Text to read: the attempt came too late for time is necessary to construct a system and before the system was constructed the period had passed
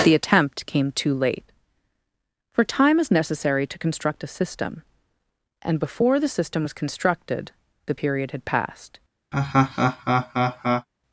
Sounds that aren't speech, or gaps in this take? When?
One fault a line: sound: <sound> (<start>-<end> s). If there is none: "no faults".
sound: laugh (9.3-10.9 s)